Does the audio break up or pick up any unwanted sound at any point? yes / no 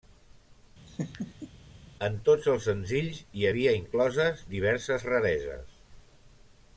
yes